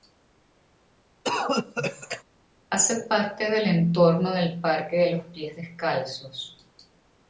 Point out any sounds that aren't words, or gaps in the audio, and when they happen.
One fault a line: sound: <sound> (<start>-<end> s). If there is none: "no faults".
sound: cough (1.2-2.2 s)